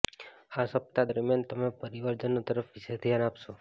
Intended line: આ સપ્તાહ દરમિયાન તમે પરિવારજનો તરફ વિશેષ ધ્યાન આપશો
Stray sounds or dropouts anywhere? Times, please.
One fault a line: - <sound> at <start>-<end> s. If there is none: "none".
none